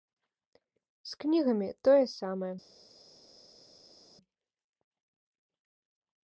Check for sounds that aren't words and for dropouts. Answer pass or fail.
pass